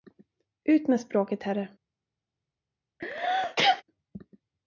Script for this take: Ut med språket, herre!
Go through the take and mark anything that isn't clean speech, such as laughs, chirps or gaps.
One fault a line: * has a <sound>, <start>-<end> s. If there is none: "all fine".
* has a sneeze, 3.0-3.8 s